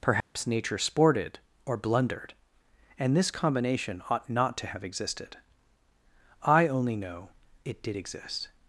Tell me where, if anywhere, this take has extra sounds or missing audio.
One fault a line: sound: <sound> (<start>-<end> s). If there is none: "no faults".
sound: dropout (0.2-0.4 s)